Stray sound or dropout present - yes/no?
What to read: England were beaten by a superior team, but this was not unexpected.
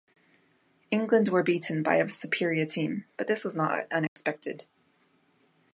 yes